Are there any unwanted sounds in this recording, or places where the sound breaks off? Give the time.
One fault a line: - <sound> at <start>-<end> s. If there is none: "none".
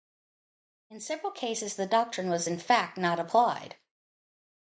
none